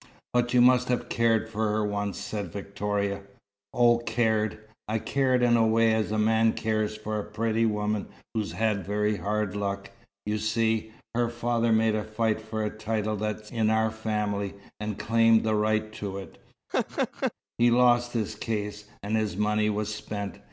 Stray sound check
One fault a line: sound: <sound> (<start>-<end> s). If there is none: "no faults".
sound: laugh (16.7-17.3 s)